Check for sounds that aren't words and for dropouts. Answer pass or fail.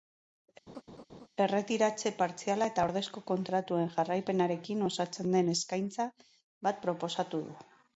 fail